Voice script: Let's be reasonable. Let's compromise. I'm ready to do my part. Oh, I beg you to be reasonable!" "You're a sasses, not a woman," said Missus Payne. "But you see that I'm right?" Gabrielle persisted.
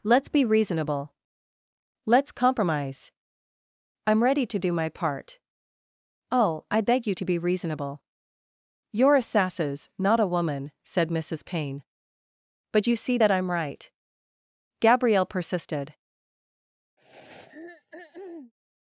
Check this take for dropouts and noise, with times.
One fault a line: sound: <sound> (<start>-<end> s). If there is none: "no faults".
sound: throat clearing (17.0-18.5 s)